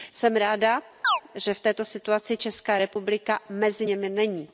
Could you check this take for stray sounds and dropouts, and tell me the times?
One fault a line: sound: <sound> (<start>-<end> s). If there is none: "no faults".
sound: chirp (1.0-1.2 s)